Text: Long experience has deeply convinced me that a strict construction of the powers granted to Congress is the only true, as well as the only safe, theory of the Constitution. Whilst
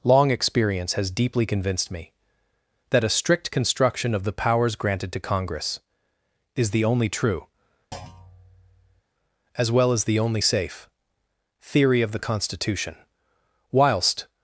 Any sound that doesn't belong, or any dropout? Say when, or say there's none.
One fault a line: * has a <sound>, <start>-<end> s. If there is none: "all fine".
* has a thud, 7.9-9.0 s